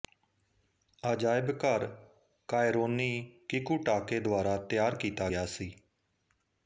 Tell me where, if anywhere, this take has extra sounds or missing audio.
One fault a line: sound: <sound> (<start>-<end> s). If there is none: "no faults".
no faults